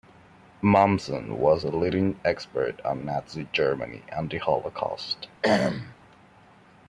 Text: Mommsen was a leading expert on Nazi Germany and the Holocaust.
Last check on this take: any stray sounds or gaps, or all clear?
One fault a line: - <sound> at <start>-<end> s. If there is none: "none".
- throat clearing at 5.4-6.0 s